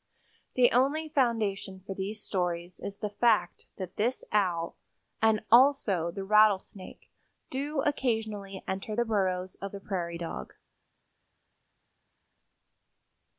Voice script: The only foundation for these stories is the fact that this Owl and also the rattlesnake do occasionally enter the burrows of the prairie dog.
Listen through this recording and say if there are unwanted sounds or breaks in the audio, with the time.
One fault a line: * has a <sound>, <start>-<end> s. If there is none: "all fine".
all fine